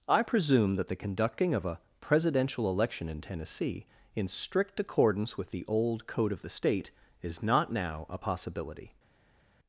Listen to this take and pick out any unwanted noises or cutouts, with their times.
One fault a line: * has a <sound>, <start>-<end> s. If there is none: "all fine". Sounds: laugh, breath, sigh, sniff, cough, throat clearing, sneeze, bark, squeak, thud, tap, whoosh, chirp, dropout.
all fine